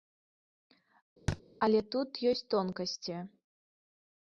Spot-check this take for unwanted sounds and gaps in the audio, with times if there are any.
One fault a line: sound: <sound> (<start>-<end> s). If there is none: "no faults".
sound: thud (1.3-1.4 s)